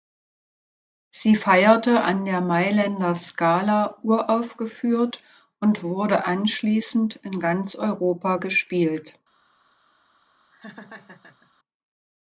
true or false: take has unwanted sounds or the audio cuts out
true